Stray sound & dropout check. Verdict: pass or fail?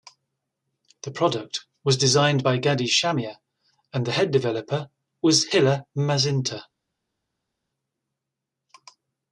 pass